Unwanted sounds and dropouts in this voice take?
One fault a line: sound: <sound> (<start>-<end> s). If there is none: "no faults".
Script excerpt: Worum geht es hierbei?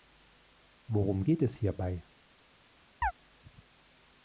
sound: chirp (3.0-3.1 s)